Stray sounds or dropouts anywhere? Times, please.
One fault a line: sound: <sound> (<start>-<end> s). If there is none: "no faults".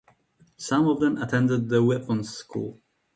no faults